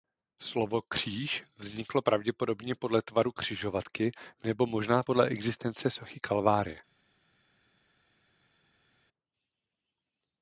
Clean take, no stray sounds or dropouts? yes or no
yes